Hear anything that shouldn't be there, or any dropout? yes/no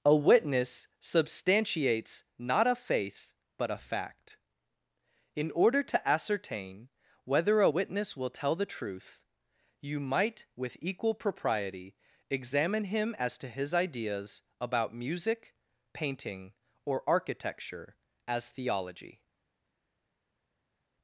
no